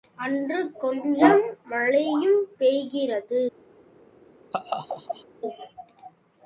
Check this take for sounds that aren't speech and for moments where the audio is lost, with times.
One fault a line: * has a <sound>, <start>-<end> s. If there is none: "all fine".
* has a laugh, 4.5-5.3 s